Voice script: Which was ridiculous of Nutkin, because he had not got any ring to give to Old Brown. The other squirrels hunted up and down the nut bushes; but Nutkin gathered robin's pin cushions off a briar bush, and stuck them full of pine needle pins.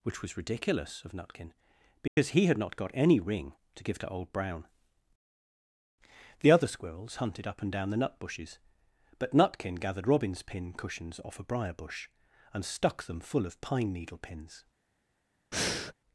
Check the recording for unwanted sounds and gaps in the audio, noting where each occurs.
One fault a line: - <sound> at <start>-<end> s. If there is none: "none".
- dropout at 2.1-2.2 s
- breath at 15.5-15.9 s